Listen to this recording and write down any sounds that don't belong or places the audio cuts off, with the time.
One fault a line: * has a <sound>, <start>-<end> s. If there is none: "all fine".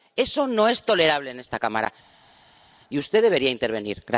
all fine